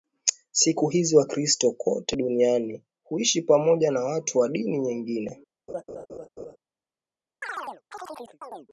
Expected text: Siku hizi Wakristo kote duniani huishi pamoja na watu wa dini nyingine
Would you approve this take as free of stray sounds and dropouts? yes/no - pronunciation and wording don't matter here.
no